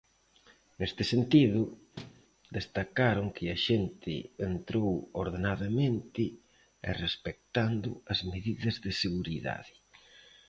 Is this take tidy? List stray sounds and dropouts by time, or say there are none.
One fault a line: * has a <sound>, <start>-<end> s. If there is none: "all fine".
* has a thud, 2.0-2.2 s